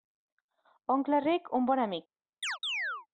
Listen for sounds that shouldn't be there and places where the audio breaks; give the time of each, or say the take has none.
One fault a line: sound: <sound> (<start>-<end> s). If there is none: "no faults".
sound: chirp (2.4-3.1 s)